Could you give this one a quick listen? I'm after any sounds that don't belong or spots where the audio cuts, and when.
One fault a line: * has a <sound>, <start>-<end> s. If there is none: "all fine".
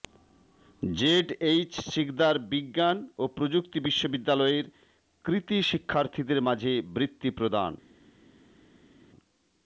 all fine